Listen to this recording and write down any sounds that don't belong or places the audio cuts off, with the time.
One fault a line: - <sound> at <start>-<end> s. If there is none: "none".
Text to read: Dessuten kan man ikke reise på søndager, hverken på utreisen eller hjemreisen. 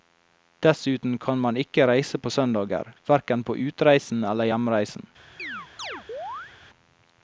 - chirp at 5.4-6.5 s